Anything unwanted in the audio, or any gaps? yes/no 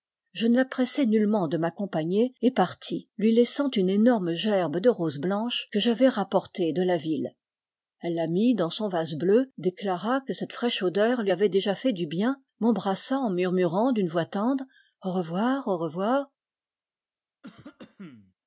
yes